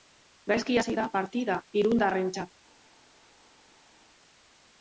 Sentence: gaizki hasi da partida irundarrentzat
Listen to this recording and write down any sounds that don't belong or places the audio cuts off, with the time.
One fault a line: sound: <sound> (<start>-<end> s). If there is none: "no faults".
no faults